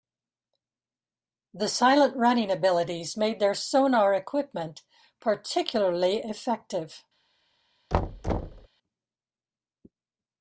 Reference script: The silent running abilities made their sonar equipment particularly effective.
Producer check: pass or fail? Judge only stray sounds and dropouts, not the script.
fail